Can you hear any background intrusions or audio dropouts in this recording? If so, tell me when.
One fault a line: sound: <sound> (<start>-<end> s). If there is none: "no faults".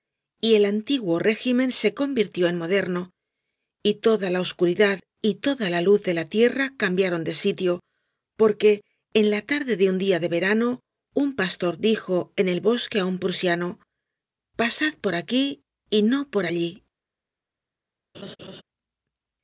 sound: laugh (18.1-18.6 s)